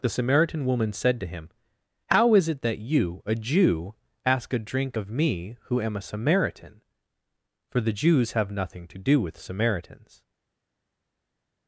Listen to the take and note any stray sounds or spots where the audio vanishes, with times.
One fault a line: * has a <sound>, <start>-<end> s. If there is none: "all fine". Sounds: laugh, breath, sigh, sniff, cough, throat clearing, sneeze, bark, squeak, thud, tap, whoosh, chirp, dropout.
all fine